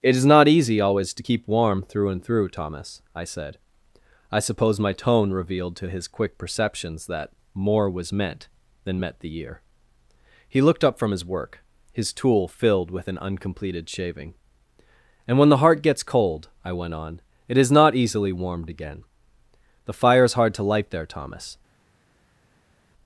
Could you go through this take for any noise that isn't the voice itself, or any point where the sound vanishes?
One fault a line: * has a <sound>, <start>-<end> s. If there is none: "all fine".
all fine